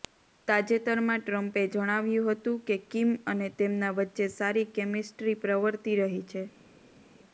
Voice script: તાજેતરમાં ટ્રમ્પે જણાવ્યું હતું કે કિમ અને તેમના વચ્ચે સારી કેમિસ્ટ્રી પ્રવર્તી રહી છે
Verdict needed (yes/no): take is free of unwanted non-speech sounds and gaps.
yes